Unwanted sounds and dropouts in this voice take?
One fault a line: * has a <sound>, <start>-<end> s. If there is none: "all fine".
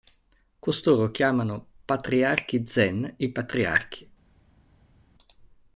all fine